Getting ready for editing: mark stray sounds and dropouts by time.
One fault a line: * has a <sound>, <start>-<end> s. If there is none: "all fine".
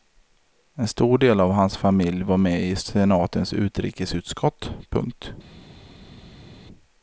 all fine